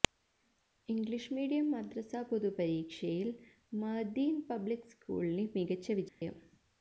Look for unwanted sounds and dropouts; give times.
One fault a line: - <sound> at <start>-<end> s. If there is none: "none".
- dropout at 6.1-6.2 s